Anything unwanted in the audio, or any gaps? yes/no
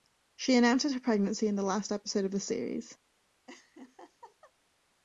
yes